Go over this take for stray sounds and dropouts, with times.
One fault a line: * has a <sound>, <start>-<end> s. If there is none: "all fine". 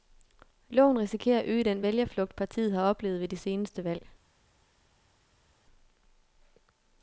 all fine